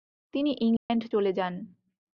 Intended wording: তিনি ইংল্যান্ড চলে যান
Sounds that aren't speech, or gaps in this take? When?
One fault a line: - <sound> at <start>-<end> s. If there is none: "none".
- dropout at 0.8-0.9 s